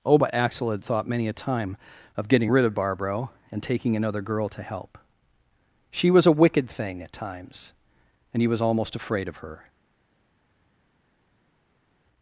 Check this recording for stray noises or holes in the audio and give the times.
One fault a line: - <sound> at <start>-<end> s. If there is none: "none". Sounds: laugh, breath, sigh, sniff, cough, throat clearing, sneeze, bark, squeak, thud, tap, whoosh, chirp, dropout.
none